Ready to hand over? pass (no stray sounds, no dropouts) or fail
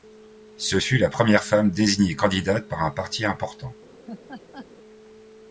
fail